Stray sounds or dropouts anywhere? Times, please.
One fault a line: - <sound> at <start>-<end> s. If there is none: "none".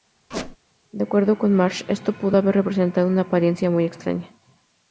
- squeak at 0.3-0.6 s